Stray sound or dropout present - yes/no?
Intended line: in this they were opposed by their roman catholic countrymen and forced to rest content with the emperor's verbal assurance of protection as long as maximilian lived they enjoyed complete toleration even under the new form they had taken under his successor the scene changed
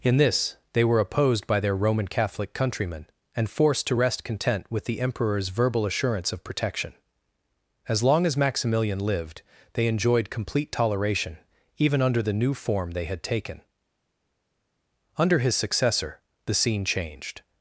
no